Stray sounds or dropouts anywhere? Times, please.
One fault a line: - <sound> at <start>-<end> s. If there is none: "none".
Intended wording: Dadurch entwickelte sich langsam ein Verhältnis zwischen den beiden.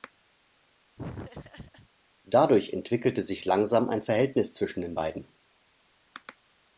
- laugh at 1.0-1.9 s